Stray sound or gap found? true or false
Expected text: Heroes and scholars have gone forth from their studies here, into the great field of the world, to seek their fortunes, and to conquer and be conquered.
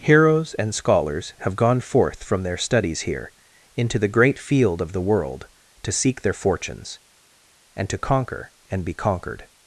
false